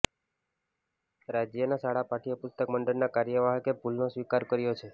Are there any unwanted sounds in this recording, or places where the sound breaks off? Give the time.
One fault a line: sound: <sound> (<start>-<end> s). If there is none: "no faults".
no faults